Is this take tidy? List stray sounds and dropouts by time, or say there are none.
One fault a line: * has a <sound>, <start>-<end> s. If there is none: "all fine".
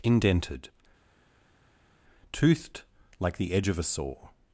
all fine